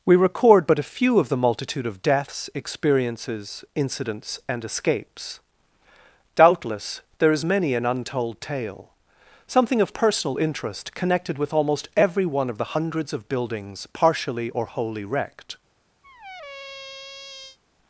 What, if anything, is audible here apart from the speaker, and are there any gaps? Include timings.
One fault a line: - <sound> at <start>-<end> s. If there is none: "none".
- squeak at 16.0-17.6 s